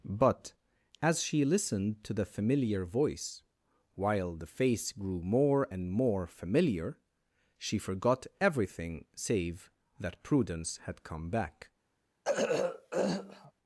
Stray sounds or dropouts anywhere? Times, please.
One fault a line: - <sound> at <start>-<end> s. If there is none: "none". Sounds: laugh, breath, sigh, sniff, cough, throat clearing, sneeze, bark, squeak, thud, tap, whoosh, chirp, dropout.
- throat clearing at 12.2-13.5 s